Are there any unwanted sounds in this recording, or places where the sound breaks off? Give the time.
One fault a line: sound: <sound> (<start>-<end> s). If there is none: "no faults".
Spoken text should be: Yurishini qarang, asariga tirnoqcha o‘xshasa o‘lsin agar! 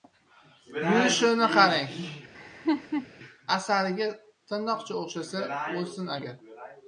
sound: laugh (2.3-3.1 s)